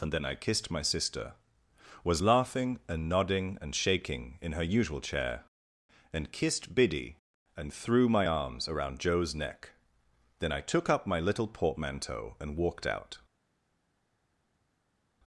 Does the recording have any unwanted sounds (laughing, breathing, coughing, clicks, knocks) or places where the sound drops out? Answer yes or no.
no